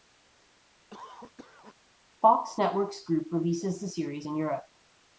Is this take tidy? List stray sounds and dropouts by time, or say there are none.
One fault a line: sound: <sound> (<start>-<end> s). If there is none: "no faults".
sound: cough (0.9-1.8 s)